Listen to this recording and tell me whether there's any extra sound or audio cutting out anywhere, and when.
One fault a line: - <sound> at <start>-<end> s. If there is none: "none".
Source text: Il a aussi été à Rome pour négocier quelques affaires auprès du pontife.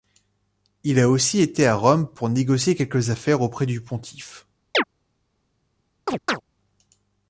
- chirp at 4.7-4.8 s
- chirp at 6.1-6.4 s